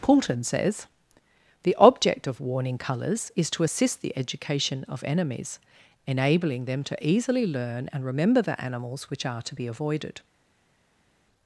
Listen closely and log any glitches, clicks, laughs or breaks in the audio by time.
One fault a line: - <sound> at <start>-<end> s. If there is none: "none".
none